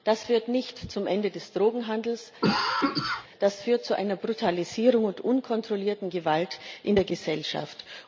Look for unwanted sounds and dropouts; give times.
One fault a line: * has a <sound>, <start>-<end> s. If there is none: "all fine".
* has a cough, 2.4-3.3 s